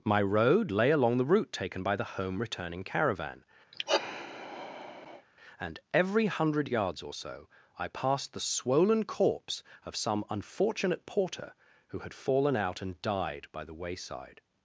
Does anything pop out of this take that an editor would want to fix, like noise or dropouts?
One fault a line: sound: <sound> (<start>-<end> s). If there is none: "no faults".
sound: sigh (3.7-5.3 s)